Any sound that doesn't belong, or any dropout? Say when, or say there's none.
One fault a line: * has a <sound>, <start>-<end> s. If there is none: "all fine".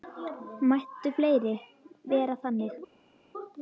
all fine